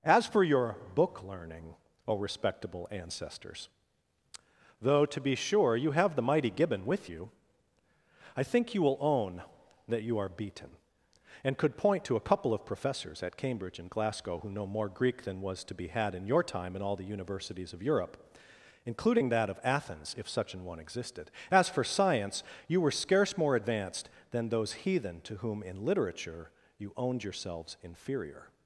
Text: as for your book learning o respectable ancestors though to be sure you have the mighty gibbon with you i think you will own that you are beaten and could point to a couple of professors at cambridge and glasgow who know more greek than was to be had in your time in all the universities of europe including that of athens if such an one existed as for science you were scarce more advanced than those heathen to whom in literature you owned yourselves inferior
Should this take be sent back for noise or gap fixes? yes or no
no